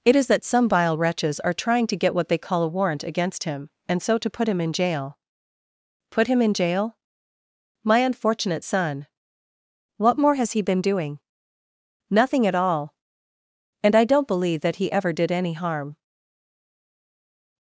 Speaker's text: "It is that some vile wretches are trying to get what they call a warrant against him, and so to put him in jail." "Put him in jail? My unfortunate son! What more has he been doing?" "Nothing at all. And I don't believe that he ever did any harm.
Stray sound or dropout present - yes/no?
no